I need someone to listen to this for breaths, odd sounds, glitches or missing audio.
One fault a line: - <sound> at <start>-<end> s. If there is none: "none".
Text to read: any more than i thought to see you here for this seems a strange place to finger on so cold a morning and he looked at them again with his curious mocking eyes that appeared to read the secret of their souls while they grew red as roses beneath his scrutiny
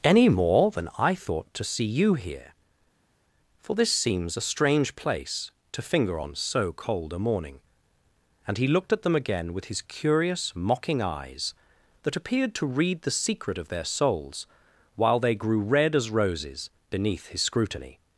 none